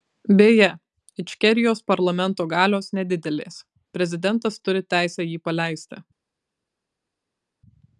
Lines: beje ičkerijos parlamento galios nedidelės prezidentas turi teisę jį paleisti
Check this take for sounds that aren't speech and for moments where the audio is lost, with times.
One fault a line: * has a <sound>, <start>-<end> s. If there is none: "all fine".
all fine